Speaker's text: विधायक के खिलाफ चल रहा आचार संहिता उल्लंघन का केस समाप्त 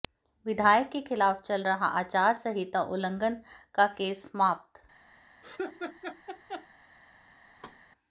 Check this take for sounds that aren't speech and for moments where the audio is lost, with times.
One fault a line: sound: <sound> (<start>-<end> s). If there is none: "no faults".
sound: laugh (5.4-6.7 s)
sound: thud (7.6-7.8 s)